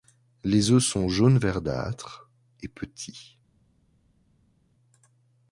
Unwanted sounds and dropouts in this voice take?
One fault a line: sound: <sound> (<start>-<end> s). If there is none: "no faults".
no faults